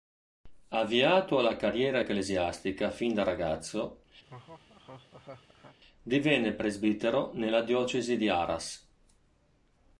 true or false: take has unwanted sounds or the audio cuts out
true